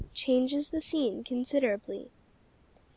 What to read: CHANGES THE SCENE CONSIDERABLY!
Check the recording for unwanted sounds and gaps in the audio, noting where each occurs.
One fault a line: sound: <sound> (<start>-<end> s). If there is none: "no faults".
no faults